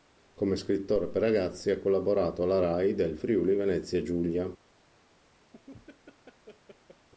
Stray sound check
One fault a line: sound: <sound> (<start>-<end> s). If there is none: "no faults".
sound: laugh (5.5-7.1 s)